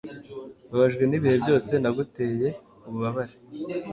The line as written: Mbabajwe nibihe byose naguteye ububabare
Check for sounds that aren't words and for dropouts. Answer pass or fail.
pass